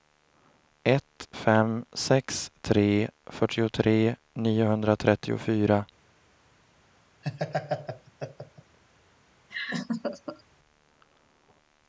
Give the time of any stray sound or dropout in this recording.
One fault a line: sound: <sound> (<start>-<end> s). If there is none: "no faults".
sound: laugh (7.2-8.8 s)
sound: laugh (9.5-10.4 s)